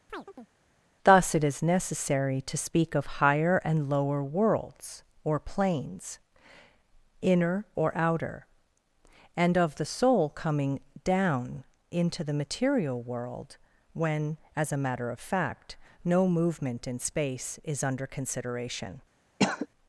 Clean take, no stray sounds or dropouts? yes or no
no